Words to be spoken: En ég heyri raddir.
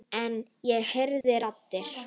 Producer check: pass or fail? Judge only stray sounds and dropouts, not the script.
fail